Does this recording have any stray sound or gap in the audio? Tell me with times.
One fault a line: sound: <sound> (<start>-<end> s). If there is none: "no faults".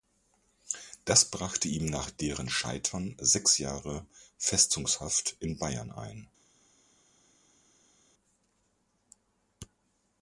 no faults